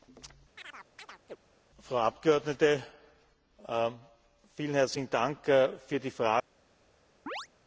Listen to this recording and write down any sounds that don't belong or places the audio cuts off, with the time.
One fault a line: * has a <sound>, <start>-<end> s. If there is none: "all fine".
* has a chirp, 0.6-1.4 s
* has a chirp, 7.3-7.5 s